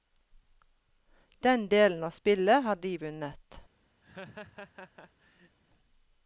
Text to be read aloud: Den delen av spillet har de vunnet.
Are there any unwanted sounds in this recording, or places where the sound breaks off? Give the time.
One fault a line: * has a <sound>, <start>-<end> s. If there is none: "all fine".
* has a laugh, 4.0-5.6 s